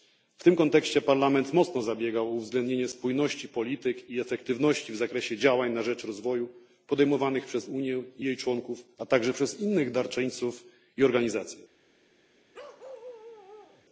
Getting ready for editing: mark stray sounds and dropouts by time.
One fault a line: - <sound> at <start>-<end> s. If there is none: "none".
- bark at 12.5-13.9 s